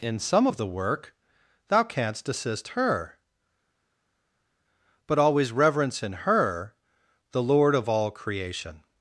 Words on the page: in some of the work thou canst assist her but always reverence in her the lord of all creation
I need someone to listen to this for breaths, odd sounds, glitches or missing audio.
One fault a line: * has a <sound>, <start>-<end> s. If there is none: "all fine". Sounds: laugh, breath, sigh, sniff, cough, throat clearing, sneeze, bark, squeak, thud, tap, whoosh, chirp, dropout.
all fine